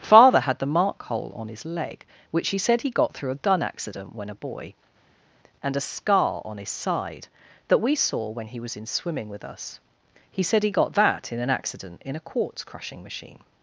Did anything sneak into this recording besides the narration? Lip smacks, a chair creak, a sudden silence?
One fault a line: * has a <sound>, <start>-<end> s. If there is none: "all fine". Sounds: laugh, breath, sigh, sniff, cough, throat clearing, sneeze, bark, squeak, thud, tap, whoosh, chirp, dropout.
all fine